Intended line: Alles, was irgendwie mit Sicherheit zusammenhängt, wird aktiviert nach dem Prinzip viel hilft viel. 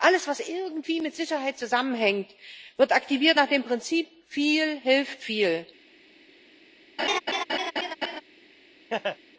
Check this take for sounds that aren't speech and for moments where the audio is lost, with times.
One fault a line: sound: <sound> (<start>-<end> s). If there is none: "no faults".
sound: laugh (7.0-8.2 s)
sound: laugh (8.9-9.2 s)